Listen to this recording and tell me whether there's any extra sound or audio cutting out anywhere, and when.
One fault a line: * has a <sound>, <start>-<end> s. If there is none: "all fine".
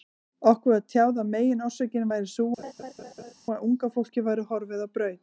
* has a laugh, 2.6-3.3 s